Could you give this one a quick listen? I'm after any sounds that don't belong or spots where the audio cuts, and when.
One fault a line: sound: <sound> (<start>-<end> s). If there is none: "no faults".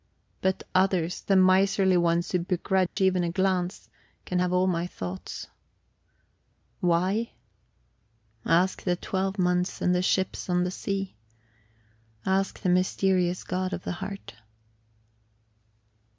sound: dropout (2.9-3.0 s)